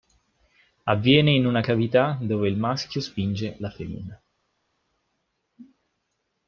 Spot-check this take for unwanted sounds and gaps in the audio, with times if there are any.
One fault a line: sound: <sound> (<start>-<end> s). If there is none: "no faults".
no faults